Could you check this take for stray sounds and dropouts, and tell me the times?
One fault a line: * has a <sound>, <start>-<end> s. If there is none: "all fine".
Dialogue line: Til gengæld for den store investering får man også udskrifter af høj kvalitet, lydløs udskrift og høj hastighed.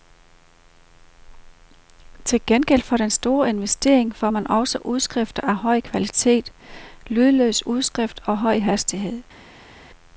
all fine